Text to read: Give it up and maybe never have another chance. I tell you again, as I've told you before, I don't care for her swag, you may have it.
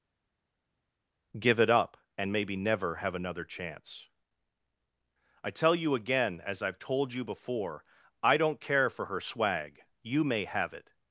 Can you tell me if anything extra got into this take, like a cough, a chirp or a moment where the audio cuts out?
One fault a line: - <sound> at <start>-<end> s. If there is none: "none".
none